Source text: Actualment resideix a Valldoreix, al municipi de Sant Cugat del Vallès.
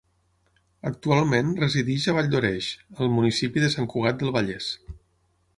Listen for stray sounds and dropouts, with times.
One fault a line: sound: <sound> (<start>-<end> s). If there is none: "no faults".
no faults